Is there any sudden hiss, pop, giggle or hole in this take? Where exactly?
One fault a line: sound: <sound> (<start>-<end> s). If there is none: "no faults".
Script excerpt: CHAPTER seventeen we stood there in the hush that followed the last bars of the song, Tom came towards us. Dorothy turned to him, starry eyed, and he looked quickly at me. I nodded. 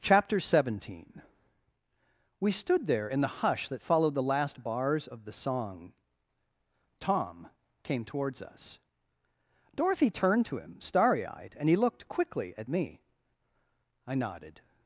no faults